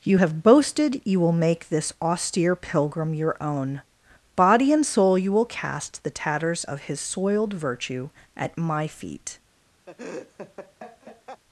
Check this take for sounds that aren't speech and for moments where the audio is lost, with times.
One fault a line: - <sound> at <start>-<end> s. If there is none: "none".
- laugh at 9.9-11.4 s